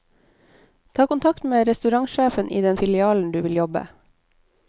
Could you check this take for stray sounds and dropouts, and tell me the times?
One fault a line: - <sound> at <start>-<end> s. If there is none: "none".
none